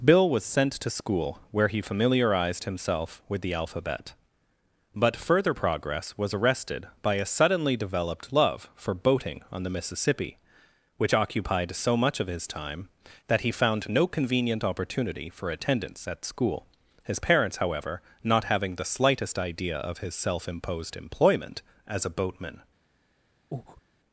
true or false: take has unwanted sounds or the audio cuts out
true